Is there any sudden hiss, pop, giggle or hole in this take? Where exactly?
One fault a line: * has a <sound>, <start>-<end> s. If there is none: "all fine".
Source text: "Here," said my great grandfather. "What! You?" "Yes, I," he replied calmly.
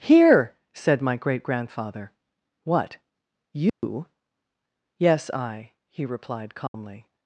* has a dropout, 3.7-3.8 s
* has a dropout, 6.7-6.7 s